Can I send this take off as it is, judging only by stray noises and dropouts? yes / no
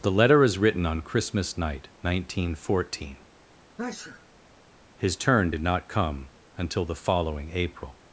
no